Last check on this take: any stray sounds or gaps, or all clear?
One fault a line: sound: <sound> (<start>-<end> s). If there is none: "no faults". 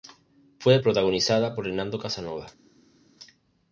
no faults